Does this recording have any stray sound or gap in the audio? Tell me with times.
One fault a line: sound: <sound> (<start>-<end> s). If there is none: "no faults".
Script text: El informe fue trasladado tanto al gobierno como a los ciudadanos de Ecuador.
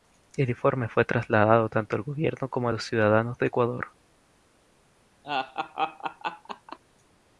sound: laugh (5.2-6.8 s)